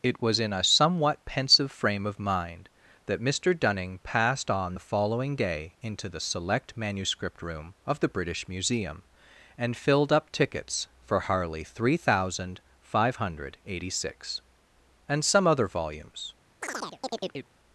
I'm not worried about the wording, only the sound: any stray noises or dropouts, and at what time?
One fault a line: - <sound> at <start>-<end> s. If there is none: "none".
- chirp at 16.6-17.5 s